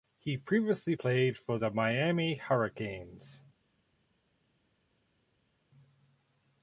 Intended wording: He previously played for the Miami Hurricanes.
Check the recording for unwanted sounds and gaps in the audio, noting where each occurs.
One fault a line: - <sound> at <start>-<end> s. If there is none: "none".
none